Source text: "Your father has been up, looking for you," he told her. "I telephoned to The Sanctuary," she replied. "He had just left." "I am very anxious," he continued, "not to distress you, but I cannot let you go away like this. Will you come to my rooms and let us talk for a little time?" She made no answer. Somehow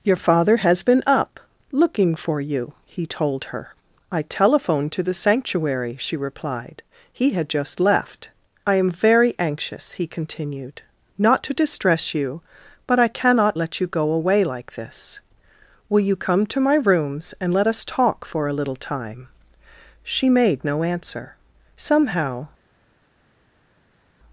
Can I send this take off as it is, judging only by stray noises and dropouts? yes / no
yes